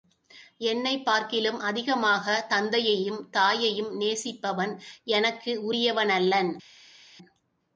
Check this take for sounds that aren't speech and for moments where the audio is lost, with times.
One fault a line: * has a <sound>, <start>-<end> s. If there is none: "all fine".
all fine